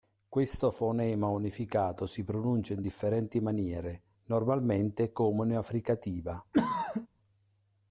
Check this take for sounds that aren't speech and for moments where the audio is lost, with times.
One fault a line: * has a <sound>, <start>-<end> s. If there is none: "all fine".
* has a throat clearing, 6.5-7.1 s